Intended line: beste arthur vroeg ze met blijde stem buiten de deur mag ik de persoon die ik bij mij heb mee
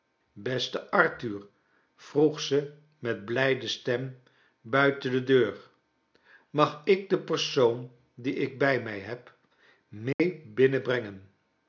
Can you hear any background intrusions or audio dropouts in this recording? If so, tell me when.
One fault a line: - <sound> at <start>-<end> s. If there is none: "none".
- dropout at 10.1-10.2 s